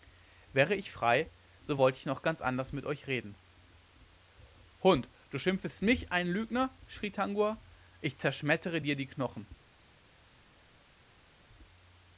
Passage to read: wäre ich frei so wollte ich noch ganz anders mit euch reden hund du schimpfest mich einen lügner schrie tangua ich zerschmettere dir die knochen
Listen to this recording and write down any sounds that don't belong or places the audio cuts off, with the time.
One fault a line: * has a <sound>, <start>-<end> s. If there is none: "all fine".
all fine